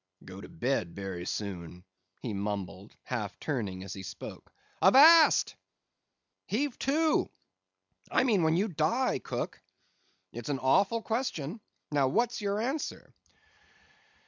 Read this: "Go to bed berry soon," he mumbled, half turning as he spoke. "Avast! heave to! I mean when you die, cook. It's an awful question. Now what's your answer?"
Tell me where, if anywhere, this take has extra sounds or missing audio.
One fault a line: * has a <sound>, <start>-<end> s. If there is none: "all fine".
all fine